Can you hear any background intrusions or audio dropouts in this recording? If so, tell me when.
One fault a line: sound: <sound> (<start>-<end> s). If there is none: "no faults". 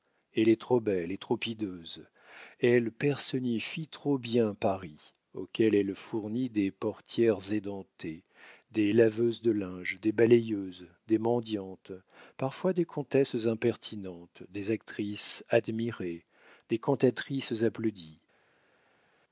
no faults